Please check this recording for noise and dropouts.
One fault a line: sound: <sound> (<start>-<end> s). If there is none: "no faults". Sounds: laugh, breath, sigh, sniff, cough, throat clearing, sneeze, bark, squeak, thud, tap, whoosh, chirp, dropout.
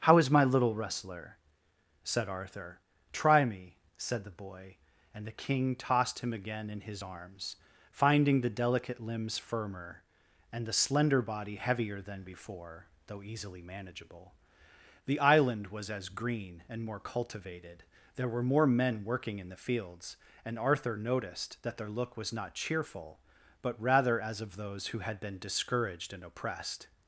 no faults